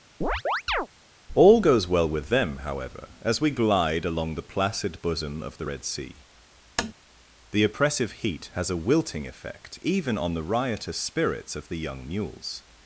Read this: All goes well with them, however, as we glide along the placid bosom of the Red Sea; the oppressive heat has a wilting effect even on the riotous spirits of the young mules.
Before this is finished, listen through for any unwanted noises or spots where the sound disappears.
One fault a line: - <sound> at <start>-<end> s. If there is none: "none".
- chirp at 0.2-0.9 s
- tap at 6.8-6.9 s